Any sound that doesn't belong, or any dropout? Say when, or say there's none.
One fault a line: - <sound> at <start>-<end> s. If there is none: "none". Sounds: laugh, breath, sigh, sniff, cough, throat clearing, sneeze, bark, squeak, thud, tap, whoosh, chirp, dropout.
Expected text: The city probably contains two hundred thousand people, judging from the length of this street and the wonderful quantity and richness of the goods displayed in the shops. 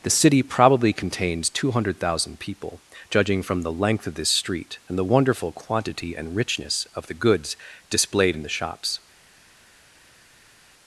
none